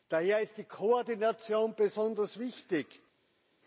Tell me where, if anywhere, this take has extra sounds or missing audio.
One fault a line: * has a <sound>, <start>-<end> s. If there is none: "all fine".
all fine